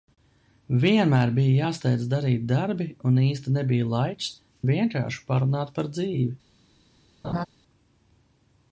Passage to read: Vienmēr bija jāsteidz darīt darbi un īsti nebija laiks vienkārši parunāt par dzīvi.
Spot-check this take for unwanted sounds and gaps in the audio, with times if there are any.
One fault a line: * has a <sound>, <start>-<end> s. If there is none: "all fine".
* has a laugh, 7.2-7.5 s